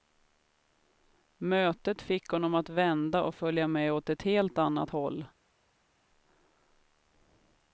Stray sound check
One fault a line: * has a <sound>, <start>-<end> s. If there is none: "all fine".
all fine